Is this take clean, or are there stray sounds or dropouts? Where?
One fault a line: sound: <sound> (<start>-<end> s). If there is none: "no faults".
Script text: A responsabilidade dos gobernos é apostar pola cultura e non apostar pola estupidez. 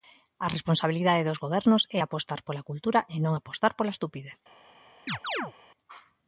sound: chirp (5.1-5.5 s)